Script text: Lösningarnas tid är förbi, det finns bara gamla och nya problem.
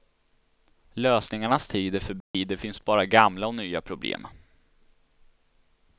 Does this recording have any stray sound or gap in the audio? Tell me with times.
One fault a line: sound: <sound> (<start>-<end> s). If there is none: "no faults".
sound: dropout (2.2-2.3 s)